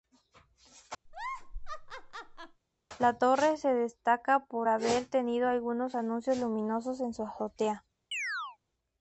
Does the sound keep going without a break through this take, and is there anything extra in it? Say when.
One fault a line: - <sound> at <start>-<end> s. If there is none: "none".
- laugh at 1.1-2.6 s
- chirp at 8.1-8.6 s